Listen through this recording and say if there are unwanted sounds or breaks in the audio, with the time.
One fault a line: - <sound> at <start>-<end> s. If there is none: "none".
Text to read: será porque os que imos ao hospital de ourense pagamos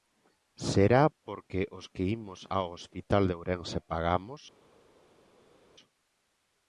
none